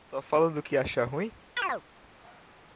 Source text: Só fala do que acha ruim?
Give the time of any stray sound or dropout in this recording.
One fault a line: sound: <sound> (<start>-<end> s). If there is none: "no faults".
sound: chirp (1.6-1.8 s)